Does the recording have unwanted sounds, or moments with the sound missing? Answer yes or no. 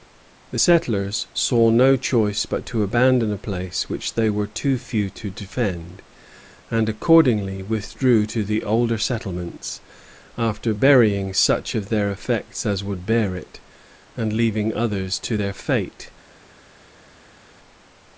no